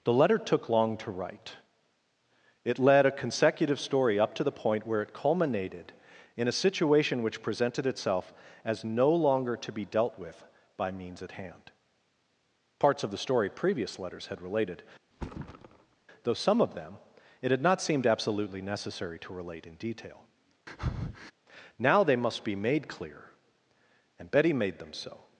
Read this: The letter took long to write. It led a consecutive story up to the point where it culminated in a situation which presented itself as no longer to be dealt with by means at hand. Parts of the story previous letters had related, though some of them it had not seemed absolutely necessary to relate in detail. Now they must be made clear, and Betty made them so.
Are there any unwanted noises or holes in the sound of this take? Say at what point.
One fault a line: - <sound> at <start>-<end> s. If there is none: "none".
- thud at 15.1-16.0 s
- breath at 20.7-21.3 s